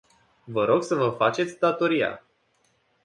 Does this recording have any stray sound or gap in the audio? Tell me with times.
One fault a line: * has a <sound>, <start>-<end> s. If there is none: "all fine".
all fine